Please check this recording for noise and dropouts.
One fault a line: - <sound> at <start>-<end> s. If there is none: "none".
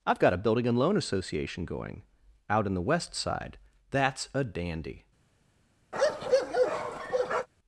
- bark at 5.9-7.5 s